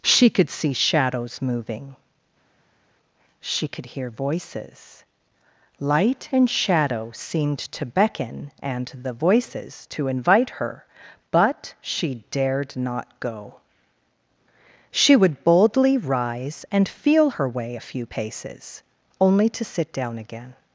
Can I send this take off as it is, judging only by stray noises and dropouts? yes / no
yes